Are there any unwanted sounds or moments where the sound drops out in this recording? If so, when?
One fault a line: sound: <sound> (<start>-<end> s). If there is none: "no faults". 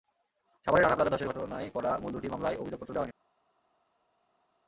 no faults